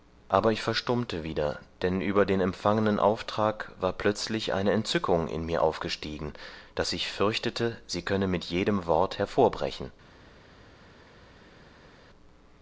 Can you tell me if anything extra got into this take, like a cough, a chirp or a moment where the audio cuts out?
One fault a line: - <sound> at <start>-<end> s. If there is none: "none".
none